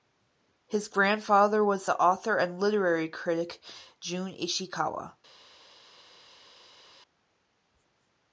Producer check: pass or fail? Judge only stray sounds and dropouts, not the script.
pass